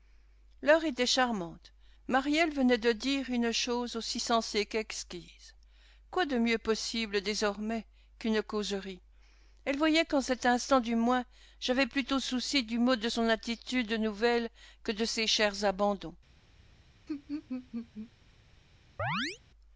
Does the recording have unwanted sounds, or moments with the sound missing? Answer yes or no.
yes